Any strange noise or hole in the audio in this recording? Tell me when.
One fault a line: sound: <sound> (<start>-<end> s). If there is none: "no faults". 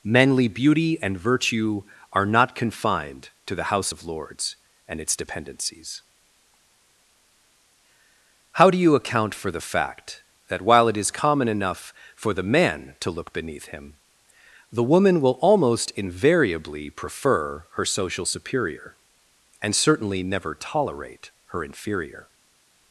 no faults